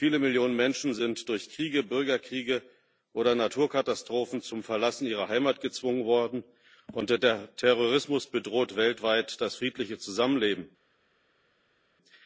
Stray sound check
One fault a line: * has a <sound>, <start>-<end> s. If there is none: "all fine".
all fine